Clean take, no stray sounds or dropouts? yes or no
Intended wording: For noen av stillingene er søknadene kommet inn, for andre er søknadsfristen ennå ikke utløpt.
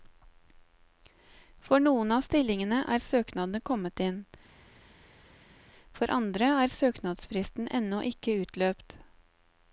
yes